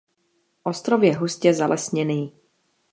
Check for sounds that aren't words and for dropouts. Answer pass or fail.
pass